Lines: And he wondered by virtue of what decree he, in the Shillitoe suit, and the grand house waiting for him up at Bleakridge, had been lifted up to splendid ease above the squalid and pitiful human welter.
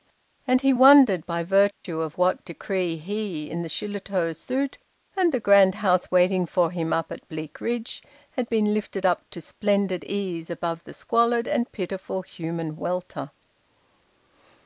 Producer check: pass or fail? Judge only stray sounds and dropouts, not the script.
fail